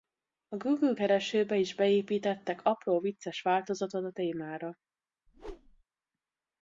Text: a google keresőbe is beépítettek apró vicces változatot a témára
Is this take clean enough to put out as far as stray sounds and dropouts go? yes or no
no